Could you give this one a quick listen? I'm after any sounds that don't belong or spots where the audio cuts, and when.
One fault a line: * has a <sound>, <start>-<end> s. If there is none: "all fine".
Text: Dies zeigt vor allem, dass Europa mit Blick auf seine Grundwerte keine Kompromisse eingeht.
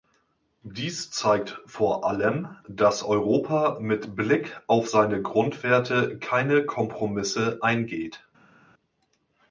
all fine